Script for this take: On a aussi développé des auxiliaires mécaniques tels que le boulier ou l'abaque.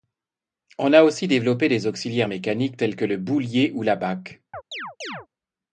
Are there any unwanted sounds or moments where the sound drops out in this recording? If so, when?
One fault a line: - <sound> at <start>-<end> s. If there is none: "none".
- chirp at 4.5-5.3 s